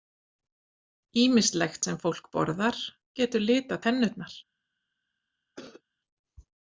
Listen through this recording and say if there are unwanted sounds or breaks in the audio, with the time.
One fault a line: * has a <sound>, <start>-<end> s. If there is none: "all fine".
* has a cough, 5.6-5.8 s